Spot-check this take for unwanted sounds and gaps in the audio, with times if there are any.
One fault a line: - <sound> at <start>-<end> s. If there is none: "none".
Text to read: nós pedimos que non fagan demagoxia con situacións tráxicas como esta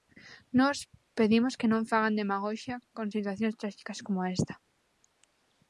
none